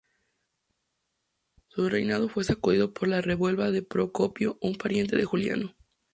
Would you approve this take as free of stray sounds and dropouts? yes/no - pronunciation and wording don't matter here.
yes